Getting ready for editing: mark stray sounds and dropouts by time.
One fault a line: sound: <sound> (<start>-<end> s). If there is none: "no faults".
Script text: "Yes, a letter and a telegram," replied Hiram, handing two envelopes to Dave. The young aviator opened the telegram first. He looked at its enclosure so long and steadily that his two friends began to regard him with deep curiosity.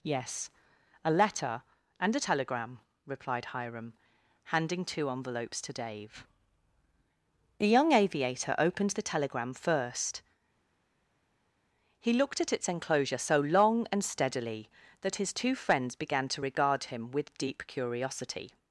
no faults